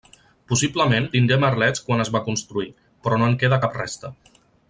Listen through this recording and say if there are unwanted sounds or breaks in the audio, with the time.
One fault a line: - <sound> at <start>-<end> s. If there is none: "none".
none